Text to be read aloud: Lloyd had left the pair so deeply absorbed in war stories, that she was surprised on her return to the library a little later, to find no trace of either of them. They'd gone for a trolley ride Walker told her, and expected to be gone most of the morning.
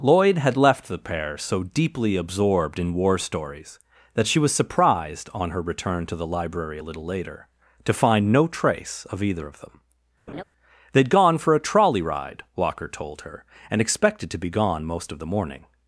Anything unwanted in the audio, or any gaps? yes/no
yes